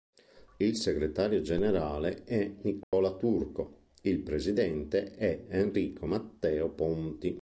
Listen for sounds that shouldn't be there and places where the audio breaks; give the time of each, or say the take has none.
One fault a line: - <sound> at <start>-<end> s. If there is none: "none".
- dropout at 2.8-2.9 s